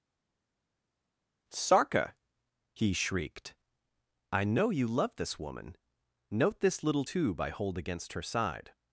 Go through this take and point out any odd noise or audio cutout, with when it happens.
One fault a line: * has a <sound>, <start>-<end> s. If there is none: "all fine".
all fine